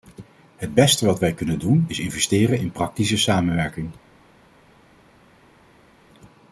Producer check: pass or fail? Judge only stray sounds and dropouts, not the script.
pass